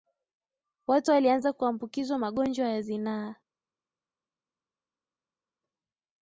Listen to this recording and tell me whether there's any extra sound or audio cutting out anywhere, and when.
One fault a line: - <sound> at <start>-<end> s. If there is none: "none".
none